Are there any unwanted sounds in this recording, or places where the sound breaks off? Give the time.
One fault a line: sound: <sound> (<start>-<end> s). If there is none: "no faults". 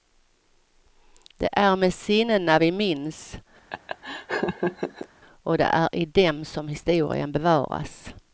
sound: laugh (3.7-5.1 s)